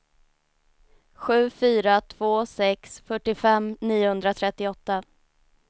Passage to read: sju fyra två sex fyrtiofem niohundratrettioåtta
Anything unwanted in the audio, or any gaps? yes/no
no